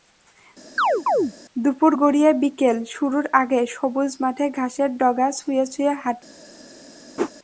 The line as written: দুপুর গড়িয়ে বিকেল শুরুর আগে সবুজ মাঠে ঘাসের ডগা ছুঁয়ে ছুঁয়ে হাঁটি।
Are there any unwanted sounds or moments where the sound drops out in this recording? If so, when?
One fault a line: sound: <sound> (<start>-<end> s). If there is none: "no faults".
sound: chirp (0.8-1.3 s)
sound: whoosh (7.2-7.3 s)